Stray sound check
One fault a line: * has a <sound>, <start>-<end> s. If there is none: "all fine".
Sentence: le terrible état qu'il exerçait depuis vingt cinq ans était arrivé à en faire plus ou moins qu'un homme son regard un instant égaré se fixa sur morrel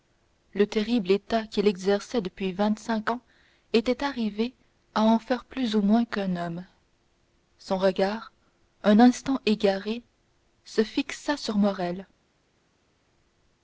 all fine